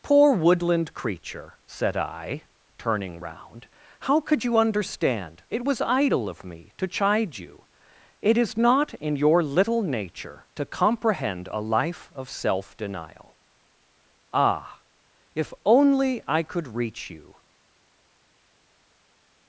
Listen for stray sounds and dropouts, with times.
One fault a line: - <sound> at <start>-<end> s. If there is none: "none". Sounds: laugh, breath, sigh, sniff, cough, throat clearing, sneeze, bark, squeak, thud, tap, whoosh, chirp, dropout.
none